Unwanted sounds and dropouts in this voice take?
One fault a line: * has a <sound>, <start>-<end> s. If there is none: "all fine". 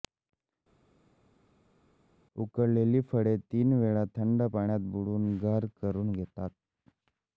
all fine